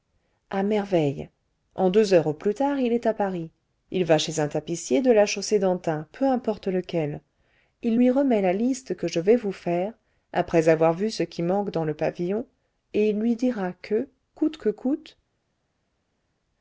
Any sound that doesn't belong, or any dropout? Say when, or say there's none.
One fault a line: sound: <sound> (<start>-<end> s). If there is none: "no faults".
no faults